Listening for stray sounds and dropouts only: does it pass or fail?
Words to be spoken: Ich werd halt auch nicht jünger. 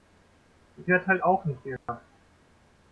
fail